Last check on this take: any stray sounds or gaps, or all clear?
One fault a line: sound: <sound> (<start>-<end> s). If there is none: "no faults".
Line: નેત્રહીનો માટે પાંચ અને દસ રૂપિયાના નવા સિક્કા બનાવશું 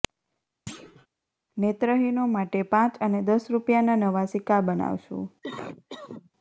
sound: thud (0.7-1.1 s)
sound: cough (5.4-6.3 s)